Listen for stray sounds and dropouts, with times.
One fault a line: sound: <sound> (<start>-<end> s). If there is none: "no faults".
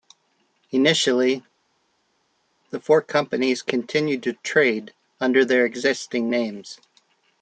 no faults